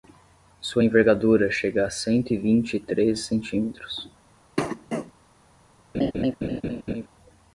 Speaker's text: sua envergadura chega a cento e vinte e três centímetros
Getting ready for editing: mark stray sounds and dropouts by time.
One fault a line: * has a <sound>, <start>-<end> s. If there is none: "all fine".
* has a cough, 4.6-5.1 s
* has a laugh, 5.9-7.1 s